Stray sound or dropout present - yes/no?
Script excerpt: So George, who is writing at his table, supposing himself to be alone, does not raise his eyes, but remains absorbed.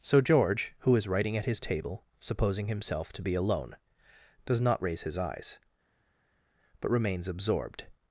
no